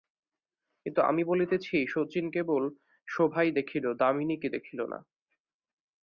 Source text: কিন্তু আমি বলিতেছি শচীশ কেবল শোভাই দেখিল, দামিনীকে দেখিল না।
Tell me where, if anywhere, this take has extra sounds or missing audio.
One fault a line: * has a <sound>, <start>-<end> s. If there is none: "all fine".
all fine